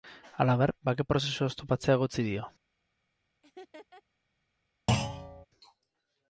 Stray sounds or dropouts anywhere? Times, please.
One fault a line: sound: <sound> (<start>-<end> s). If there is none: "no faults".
sound: laugh (3.4-4.0 s)
sound: thud (4.9-5.5 s)